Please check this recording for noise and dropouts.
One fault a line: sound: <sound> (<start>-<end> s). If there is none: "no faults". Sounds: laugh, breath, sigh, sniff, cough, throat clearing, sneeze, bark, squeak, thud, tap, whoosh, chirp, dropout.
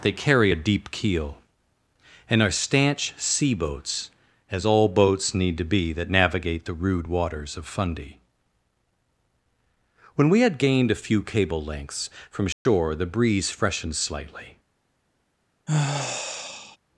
sound: dropout (12.5-12.7 s)
sound: sigh (15.7-16.8 s)